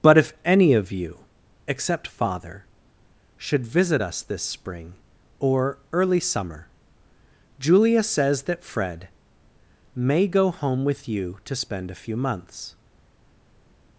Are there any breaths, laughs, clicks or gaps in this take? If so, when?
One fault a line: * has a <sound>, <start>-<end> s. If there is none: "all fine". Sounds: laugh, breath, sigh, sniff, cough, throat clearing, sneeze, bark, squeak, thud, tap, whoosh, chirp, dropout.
all fine